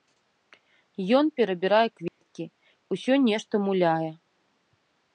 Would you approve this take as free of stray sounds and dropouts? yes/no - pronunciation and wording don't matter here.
no